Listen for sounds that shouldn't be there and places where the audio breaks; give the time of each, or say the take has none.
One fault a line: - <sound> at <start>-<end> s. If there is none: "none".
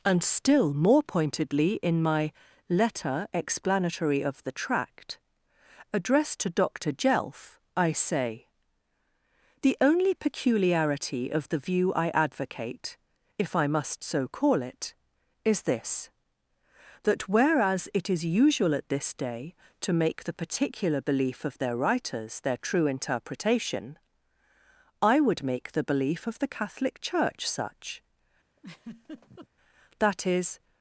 - laugh at 28.6-29.5 s